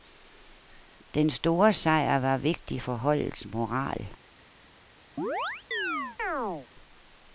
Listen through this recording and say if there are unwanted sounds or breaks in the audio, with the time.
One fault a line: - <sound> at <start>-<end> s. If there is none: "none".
- chirp at 5.2-6.7 s